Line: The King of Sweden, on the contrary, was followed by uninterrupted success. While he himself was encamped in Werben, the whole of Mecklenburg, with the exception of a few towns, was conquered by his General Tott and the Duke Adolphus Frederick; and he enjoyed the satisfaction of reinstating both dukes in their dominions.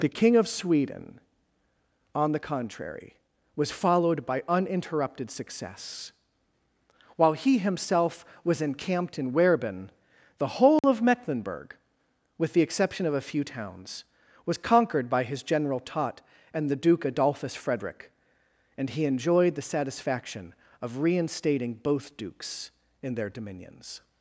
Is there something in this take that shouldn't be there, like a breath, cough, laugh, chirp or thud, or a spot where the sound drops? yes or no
yes